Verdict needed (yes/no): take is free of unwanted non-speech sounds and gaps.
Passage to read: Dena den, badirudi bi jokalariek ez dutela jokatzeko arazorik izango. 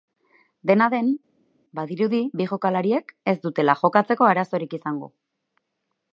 yes